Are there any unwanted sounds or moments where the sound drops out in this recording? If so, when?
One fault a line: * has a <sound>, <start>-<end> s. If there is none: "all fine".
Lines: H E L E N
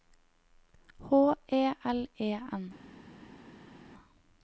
all fine